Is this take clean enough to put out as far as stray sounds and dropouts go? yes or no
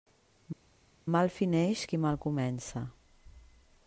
yes